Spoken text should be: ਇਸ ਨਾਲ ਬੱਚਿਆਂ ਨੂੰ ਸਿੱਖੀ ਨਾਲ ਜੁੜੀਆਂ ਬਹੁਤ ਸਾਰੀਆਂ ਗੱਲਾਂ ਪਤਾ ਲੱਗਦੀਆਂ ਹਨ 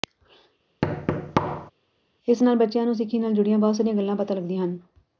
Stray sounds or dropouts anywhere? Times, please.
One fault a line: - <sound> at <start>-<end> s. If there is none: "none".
- thud at 0.8-1.7 s